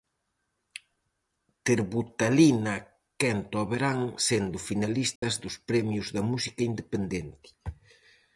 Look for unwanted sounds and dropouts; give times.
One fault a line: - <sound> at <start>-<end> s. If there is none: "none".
- dropout at 5.2-5.2 s